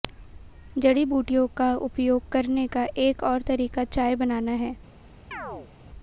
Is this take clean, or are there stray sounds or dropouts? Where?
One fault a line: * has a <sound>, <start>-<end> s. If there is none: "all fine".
* has a chirp, 5.3-5.7 s